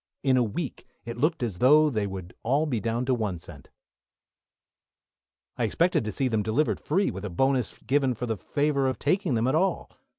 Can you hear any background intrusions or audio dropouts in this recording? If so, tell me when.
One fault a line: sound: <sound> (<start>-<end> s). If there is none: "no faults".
no faults